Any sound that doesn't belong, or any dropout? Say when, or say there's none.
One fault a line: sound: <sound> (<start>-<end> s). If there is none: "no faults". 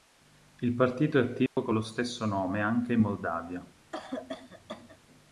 sound: dropout (1.5-1.6 s)
sound: cough (3.9-5.0 s)